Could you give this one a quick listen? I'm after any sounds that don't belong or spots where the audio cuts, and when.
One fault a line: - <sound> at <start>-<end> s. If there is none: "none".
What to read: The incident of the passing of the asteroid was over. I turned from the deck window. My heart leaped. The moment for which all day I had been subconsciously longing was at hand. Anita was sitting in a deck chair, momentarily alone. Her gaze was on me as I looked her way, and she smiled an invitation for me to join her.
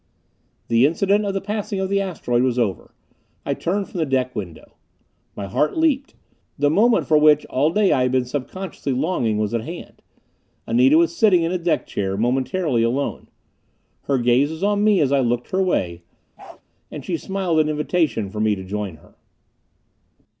- bark at 16.4-16.6 s